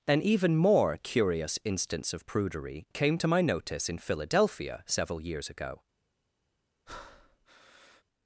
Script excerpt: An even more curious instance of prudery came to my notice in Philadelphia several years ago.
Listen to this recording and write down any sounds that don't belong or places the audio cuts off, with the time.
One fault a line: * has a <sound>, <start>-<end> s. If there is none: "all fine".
* has a breath, 6.9-8.0 s